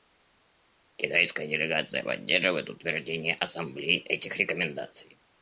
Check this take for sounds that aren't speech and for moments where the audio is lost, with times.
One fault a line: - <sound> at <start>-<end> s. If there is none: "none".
none